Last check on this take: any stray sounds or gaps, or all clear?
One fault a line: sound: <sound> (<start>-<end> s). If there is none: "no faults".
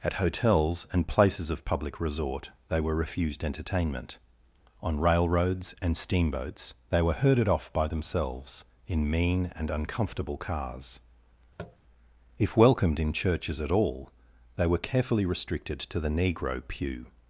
sound: tap (11.6-11.8 s)